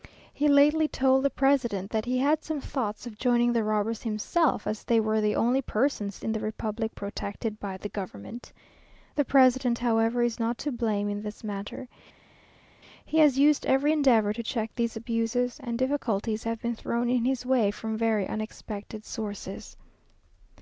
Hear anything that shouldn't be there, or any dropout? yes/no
no